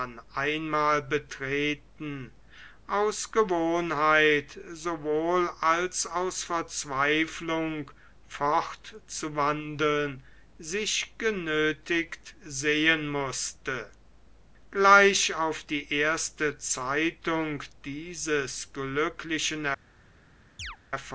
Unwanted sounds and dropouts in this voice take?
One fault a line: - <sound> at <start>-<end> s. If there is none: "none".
- chirp at 20.6-20.8 s